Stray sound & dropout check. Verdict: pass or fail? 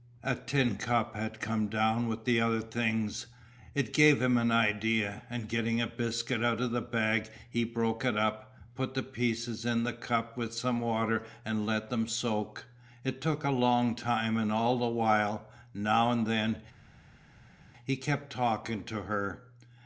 pass